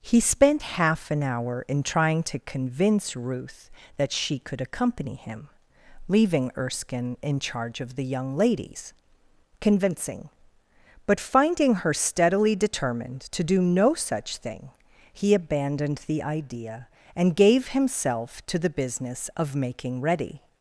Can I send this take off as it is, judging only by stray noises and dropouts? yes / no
yes